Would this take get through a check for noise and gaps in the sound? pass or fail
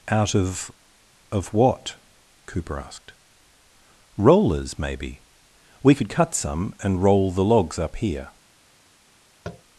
fail